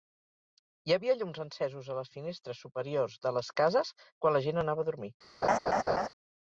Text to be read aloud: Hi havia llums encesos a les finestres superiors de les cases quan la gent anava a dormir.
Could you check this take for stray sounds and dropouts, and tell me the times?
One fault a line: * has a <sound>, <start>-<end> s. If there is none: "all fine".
* has a laugh, 5.4-6.1 s